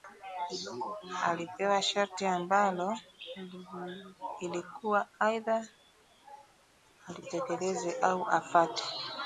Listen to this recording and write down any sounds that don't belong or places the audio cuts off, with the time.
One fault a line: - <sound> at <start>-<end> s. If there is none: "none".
none